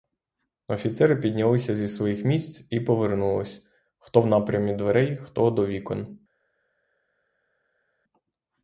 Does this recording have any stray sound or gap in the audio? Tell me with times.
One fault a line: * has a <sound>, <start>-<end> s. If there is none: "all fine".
all fine